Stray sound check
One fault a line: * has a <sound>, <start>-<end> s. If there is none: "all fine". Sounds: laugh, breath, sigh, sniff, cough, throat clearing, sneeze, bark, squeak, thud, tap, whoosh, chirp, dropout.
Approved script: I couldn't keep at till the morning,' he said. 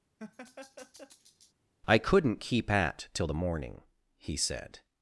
* has a laugh, 0.2-1.5 s